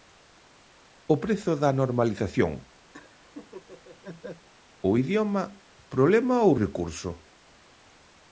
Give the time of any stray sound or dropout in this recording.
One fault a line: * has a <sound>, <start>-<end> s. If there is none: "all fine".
* has a laugh, 2.9-4.5 s